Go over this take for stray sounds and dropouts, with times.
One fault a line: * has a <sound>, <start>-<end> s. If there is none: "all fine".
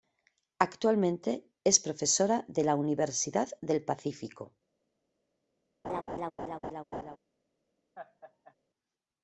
* has a laugh, 5.8-7.2 s
* has a laugh, 7.9-8.5 s